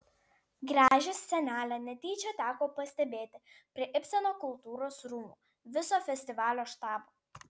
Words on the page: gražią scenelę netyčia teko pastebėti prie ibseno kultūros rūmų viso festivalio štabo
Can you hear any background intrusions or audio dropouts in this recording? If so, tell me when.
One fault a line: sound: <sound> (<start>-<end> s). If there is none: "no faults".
sound: dropout (0.9-0.9 s)